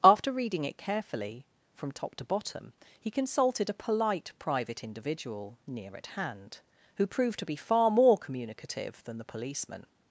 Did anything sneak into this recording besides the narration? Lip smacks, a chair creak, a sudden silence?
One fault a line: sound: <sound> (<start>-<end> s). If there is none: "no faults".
no faults